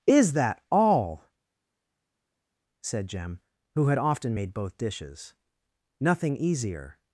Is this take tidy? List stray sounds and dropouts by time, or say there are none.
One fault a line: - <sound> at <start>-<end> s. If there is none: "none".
none